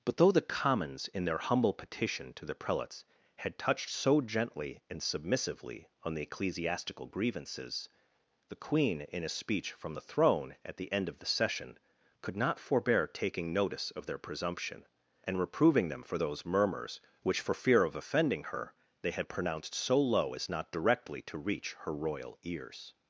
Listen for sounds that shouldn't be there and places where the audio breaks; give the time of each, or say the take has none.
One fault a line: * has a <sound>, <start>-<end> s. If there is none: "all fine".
all fine